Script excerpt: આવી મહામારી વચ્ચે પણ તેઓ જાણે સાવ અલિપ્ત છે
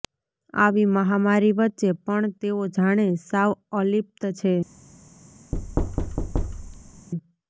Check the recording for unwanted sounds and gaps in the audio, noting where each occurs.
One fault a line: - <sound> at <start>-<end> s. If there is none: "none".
- thud at 5.5-7.1 s